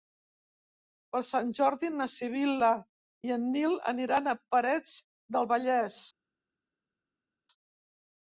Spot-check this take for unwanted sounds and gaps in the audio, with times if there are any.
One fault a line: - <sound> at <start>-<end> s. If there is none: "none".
none